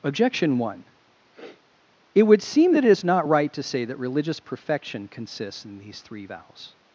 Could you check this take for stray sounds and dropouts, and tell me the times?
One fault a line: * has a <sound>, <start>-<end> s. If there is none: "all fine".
* has a sniff, 1.3-1.6 s